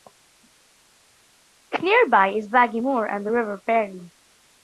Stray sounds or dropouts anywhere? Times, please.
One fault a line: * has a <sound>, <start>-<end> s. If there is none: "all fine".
all fine